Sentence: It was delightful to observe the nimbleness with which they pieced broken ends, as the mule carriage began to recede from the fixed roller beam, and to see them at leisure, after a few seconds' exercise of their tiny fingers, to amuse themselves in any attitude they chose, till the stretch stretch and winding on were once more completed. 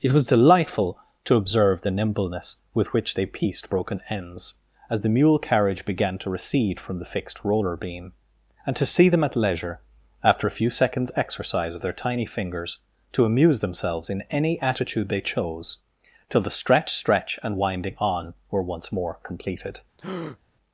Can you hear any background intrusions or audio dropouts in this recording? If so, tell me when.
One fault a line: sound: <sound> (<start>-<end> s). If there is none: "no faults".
sound: breath (20.0-20.4 s)